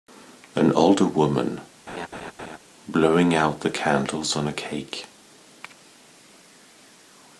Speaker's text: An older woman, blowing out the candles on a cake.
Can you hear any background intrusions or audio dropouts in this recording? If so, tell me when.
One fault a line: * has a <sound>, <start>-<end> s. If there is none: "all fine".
* has a laugh, 1.9-2.6 s